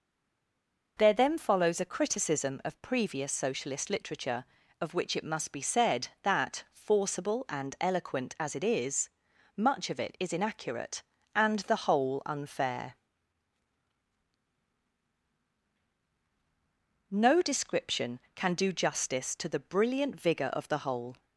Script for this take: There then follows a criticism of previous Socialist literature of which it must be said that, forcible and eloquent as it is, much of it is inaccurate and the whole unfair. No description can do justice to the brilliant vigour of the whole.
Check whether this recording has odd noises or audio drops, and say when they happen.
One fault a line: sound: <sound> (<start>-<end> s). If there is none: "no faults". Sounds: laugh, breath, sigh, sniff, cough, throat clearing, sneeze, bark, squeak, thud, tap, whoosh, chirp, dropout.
no faults